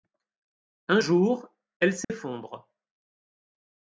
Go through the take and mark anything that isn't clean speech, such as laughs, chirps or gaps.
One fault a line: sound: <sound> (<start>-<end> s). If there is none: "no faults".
sound: dropout (2.0-2.1 s)